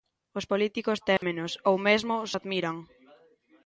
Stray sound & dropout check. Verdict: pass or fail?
fail